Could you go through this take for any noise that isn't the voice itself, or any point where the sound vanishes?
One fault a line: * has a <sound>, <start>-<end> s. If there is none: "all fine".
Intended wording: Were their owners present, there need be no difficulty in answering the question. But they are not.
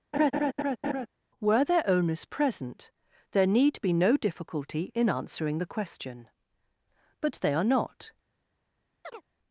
* has a laugh, 0.1-1.1 s
* has a chirp, 9.0-9.2 s